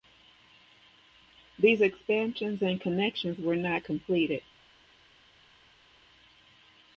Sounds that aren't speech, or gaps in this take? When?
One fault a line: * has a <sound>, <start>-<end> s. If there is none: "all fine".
all fine